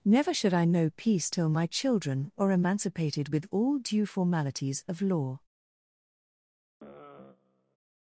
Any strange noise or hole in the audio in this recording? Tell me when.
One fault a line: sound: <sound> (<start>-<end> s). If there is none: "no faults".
sound: sigh (6.8-7.8 s)